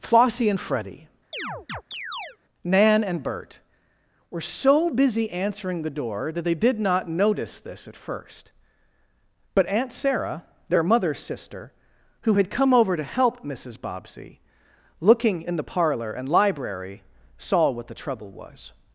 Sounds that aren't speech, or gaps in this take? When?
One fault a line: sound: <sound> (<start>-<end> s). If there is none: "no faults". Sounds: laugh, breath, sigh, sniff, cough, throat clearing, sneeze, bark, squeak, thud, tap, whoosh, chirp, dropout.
sound: chirp (1.3-2.4 s)